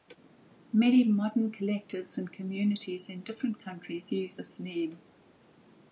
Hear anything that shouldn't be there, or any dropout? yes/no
no